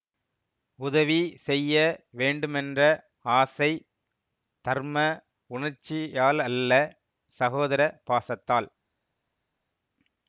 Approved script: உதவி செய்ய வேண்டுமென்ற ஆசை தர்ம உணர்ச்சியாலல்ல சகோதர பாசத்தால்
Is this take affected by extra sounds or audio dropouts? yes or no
no